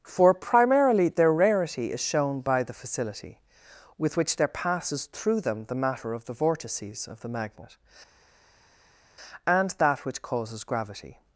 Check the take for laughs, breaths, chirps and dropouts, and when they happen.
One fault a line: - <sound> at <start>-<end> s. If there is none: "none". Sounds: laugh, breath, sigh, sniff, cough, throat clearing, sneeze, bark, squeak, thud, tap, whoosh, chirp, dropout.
none